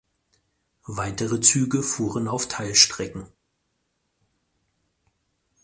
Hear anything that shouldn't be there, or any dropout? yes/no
no